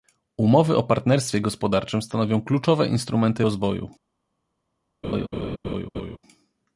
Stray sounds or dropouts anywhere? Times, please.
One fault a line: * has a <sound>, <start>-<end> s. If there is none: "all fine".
* has a laugh, 5.0-6.2 s